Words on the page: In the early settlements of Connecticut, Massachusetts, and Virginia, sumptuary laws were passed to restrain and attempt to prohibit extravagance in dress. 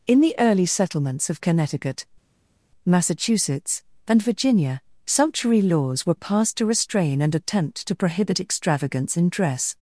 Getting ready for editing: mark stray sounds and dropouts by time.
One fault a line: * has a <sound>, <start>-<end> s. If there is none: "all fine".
all fine